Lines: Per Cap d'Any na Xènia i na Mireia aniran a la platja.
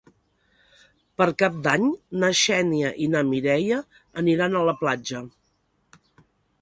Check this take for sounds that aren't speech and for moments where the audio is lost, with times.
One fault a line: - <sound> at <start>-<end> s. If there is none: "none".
none